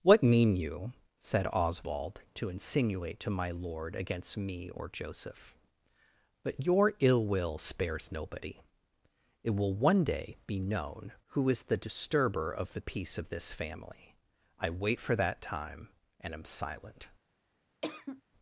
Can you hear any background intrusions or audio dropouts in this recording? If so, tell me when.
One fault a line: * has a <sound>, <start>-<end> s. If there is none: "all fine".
* has a cough, 17.8-18.2 s